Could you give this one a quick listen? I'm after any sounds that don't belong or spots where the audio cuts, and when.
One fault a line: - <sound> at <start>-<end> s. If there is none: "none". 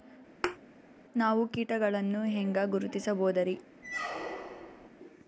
- thud at 0.4-0.6 s
- squeak at 3.8-4.9 s